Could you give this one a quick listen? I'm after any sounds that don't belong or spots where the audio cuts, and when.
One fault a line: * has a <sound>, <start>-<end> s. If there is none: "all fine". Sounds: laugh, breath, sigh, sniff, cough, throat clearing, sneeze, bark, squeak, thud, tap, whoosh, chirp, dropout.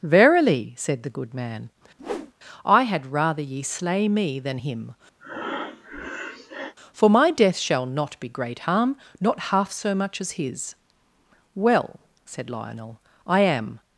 * has a whoosh, 2.0-2.3 s
* has a breath, 5.2-6.7 s